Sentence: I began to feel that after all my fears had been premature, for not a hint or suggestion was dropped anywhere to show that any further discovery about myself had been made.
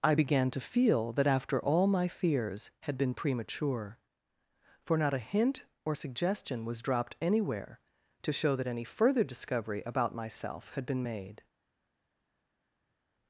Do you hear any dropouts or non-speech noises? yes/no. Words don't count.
no